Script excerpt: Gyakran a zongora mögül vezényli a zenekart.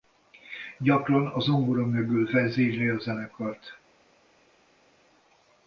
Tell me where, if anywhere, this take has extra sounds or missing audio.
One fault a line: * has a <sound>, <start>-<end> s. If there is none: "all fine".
all fine